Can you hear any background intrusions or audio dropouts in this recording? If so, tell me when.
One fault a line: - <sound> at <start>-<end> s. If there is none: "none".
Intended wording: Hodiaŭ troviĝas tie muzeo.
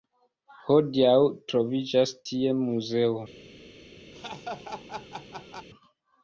- laugh at 4.1-5.7 s